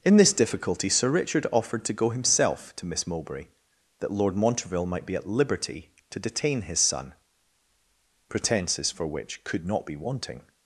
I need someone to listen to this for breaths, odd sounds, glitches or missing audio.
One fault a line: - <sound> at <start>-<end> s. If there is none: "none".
none